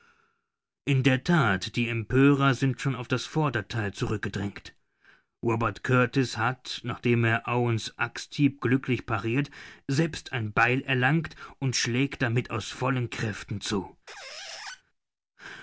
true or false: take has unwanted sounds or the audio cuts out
true